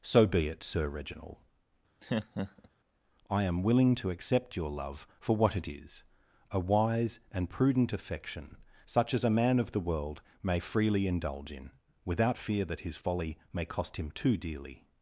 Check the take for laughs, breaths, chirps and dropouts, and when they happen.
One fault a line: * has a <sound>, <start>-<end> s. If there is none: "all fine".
* has a laugh, 2.0-2.7 s